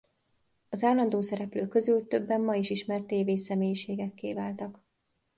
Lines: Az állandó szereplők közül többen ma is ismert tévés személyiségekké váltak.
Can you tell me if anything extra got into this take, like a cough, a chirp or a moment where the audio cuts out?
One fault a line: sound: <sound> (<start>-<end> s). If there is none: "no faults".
no faults